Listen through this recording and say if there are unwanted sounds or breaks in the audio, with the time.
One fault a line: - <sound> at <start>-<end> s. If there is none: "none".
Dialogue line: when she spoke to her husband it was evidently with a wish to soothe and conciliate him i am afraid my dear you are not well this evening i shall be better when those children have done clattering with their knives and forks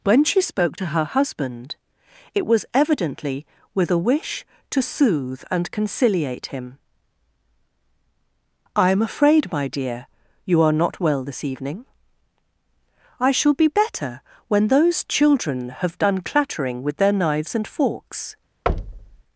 - thud at 18.7-19.2 s